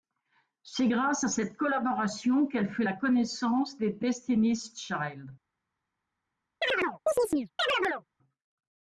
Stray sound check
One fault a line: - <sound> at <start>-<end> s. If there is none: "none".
- chirp at 6.6-8.1 s